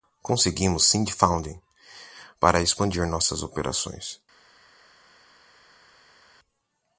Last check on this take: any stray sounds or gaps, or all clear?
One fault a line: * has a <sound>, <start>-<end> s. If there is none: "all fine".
all fine